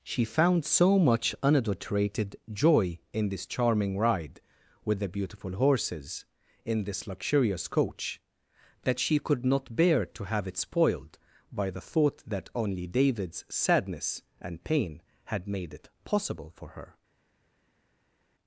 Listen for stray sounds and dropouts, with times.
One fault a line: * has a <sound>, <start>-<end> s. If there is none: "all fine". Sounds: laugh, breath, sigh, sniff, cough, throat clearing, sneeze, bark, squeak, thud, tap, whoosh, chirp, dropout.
all fine